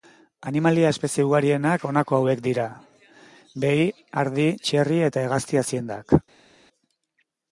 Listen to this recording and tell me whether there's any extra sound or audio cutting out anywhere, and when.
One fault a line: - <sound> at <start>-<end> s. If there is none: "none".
none